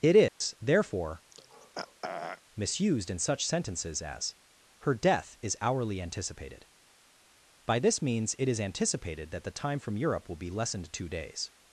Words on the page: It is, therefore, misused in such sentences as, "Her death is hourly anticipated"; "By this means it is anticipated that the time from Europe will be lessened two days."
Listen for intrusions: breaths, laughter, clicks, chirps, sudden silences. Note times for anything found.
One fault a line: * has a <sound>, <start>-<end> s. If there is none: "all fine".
* has a dropout, 0.3-0.4 s
* has a throat clearing, 1.3-2.4 s